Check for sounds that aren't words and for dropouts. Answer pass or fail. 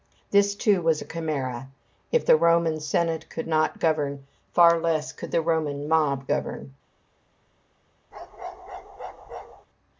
fail